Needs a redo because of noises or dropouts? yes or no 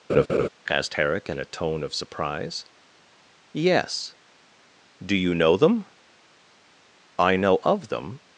yes